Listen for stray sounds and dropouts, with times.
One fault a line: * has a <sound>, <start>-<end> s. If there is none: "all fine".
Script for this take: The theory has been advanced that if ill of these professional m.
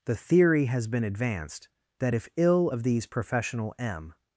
all fine